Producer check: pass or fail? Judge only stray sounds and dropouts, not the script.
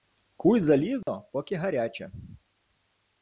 fail